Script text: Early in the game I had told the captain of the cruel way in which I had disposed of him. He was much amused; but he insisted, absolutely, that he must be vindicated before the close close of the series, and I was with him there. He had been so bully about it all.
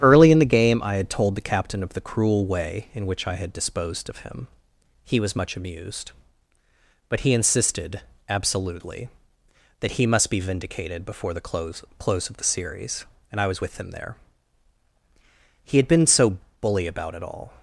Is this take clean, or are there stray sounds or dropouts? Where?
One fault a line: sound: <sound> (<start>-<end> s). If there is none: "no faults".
no faults